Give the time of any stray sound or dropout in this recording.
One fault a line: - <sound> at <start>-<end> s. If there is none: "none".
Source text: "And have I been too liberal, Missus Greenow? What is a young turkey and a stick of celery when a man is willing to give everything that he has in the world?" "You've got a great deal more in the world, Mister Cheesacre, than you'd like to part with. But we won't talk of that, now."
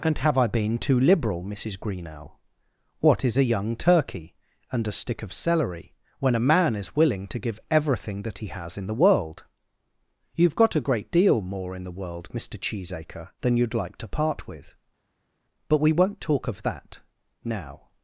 none